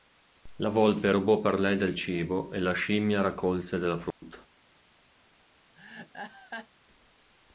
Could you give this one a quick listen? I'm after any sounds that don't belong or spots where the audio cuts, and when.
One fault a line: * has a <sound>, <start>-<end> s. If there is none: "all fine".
* has a dropout, 4.1-4.2 s
* has a laugh, 5.8-6.7 s